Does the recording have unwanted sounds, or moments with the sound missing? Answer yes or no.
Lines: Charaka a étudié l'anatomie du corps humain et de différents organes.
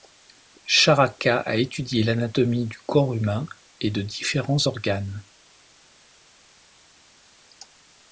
no